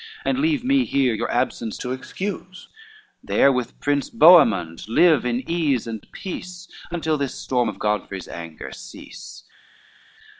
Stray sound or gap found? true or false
false